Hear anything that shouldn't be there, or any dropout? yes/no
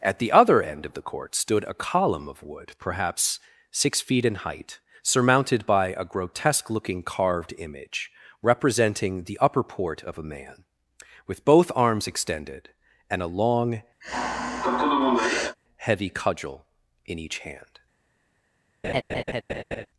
yes